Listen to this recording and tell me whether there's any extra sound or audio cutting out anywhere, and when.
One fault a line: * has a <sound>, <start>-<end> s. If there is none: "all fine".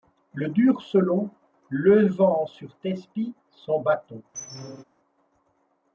* has a squeak, 4.3-4.8 s